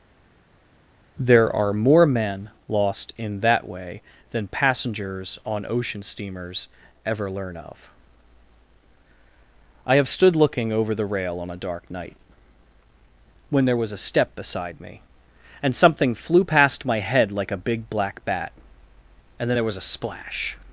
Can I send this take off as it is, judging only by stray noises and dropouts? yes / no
yes